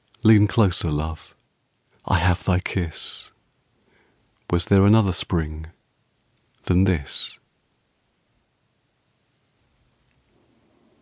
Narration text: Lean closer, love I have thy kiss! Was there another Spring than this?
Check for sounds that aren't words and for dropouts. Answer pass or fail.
pass